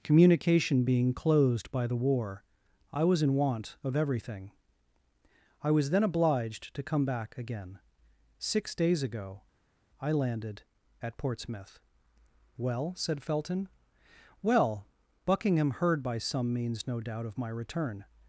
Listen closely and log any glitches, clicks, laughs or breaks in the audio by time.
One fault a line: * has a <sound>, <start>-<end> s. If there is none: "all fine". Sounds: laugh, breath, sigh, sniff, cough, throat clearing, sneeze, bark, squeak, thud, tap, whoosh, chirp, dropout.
all fine